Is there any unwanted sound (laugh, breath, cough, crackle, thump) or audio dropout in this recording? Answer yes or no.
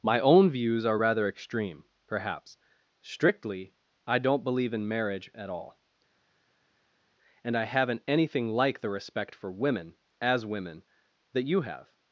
no